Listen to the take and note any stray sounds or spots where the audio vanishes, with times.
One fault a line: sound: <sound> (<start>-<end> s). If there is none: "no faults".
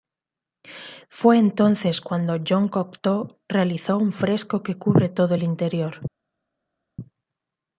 no faults